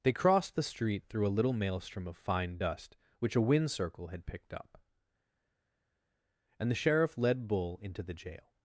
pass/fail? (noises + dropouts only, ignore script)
pass